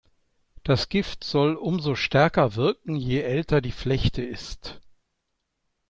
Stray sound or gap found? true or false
false